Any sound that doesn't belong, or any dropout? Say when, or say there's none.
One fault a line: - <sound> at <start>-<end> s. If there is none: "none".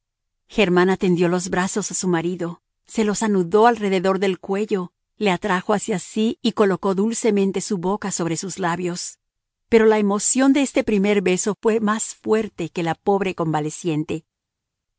none